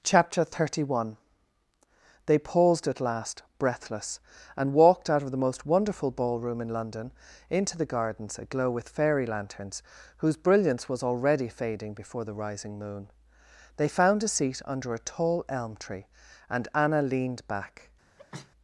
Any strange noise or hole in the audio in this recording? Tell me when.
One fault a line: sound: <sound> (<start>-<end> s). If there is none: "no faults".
sound: sneeze (18.2-18.5 s)